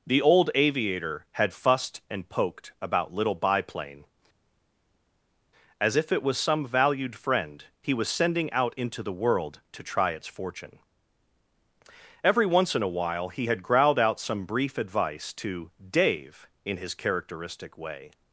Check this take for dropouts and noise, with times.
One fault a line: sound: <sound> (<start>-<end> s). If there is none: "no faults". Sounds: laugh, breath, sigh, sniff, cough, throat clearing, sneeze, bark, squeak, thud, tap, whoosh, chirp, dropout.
no faults